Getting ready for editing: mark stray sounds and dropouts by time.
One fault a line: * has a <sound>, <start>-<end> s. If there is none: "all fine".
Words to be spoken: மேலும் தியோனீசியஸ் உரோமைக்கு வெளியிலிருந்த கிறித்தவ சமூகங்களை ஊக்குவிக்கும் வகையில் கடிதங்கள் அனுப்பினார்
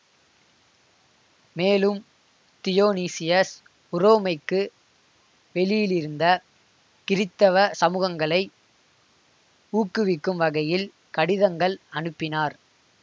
all fine